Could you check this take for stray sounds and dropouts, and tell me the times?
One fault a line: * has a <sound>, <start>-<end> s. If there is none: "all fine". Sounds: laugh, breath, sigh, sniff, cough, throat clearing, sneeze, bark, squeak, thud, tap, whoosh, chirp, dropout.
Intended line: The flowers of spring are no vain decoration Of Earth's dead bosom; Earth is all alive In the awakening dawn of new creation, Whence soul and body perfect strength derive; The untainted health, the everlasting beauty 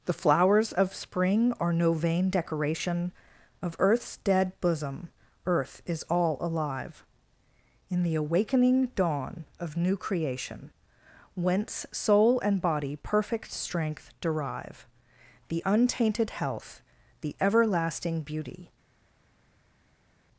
all fine